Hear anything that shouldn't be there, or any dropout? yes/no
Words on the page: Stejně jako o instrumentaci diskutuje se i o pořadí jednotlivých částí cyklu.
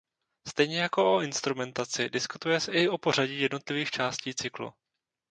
no